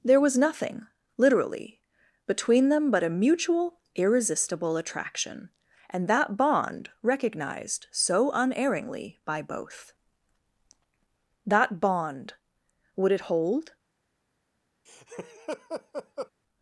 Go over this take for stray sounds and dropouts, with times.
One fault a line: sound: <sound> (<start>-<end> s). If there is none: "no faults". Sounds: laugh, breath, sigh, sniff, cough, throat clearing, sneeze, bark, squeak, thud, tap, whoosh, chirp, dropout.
sound: laugh (14.9-16.3 s)